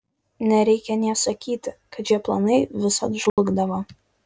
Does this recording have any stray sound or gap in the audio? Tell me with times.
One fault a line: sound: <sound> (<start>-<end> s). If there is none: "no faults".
sound: dropout (3.3-3.4 s)